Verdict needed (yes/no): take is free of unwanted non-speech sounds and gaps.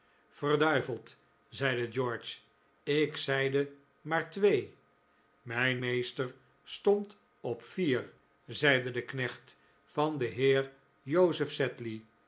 yes